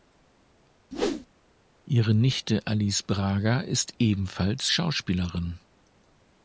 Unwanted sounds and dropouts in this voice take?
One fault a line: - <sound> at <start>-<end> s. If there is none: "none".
- whoosh at 0.9-1.3 s